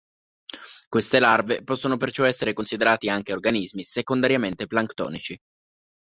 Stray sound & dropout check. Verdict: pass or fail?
pass